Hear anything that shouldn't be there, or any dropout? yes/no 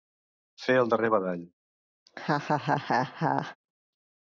yes